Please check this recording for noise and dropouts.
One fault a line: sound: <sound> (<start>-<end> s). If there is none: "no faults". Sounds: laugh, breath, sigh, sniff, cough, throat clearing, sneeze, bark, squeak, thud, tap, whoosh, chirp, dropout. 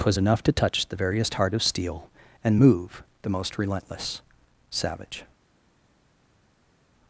no faults